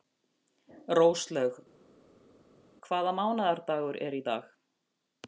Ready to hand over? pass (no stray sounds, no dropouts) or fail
pass